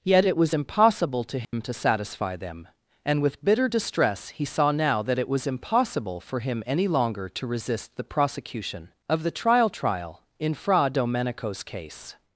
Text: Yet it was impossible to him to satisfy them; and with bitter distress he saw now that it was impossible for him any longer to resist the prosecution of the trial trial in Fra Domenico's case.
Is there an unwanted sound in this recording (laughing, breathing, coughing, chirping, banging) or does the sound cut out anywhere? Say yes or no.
yes